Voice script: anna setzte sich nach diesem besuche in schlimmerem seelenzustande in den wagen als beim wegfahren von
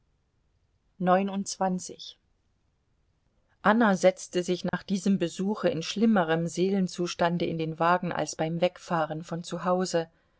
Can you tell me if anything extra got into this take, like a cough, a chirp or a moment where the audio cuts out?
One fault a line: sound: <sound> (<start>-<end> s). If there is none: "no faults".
sound: dropout (4.7-4.7 s)